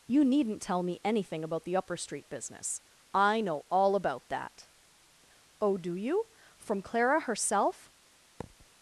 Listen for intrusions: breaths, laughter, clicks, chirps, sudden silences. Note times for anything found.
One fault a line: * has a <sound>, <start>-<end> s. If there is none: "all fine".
* has a thud, 8.4-8.7 s